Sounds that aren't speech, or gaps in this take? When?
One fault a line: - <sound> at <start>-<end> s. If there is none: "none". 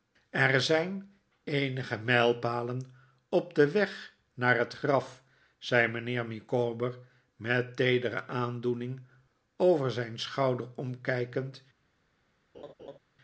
- laugh at 12.5-13.0 s